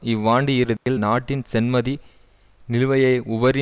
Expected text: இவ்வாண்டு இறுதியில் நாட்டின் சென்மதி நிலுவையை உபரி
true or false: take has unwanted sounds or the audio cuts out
true